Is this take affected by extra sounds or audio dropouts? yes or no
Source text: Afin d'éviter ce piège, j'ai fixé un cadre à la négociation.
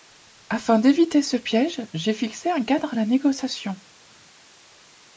no